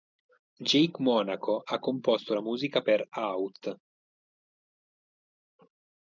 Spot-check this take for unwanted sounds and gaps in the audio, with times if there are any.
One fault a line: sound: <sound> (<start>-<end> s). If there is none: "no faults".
no faults